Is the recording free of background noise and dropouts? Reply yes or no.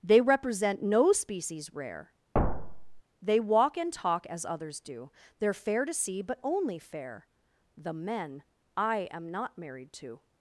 no